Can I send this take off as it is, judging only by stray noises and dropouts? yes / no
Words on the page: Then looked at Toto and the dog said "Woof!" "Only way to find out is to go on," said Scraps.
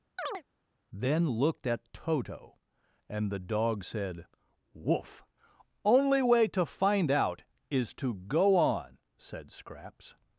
no